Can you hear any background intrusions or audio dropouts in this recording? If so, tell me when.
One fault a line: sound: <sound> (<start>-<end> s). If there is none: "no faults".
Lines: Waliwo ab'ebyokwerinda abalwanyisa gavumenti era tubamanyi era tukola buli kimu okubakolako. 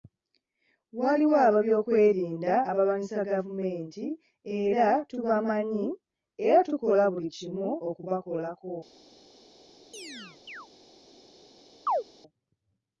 sound: chirp (9.9-10.7 s)
sound: chirp (11.9-12.0 s)